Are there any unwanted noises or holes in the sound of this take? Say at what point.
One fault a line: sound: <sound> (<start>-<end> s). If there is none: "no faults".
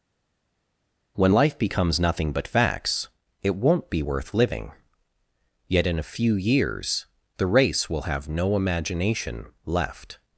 no faults